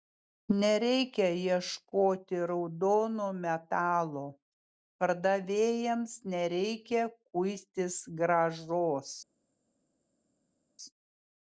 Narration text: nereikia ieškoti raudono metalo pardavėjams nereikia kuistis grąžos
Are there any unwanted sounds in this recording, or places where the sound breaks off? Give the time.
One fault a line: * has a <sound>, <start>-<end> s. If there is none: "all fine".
all fine